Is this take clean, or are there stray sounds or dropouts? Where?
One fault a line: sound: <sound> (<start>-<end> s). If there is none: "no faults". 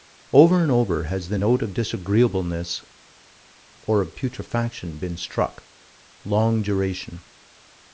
no faults